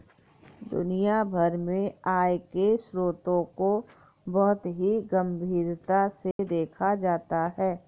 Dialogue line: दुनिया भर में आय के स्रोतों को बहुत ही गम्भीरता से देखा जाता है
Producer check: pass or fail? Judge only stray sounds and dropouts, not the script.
fail